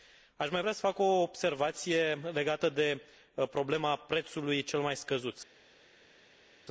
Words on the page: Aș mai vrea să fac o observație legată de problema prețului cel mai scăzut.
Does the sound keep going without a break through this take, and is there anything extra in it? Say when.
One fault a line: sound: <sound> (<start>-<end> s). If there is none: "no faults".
no faults